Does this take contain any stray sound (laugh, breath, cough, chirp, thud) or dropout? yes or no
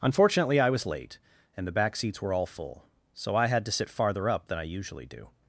no